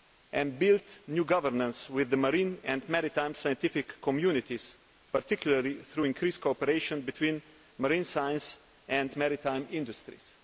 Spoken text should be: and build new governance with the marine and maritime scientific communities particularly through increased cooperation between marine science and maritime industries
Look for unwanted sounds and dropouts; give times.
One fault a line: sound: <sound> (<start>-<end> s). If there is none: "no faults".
no faults